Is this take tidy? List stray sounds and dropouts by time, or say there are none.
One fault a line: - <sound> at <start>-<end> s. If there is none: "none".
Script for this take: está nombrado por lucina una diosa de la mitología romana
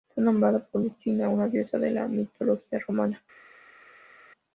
none